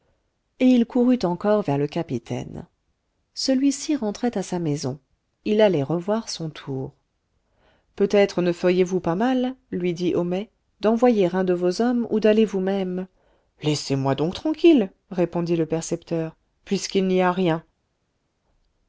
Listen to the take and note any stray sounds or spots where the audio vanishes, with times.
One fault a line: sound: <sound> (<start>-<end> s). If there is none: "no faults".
no faults